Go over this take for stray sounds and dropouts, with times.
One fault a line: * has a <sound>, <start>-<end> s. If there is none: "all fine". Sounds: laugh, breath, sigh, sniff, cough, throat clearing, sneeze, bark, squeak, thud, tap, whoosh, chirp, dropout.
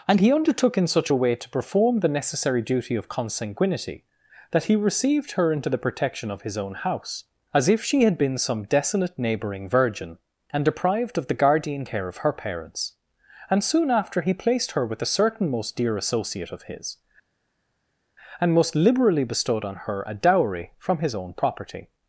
all fine